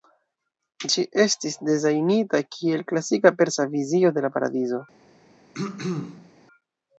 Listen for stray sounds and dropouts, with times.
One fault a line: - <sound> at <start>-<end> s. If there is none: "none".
- throat clearing at 5.5-6.3 s